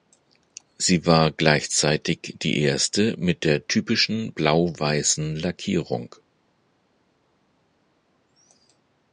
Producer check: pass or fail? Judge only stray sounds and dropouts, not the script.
pass